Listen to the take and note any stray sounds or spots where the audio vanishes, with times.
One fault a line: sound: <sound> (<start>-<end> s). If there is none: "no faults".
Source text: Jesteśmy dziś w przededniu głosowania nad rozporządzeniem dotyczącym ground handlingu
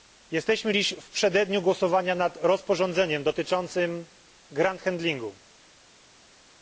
no faults